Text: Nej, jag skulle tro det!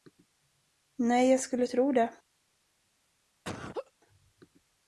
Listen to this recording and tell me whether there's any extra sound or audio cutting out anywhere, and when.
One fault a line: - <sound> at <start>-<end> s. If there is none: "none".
- laugh at 3.4-3.9 s